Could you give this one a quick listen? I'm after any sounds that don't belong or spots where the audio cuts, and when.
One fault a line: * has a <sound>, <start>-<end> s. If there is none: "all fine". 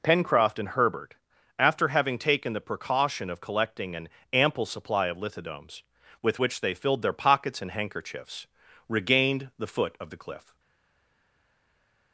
all fine